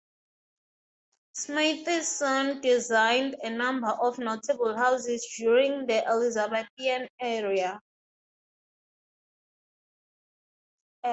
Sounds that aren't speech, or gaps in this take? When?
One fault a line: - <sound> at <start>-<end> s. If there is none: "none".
none